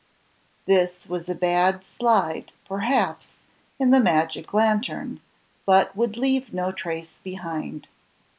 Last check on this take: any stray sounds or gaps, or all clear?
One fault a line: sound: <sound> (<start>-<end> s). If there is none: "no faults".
no faults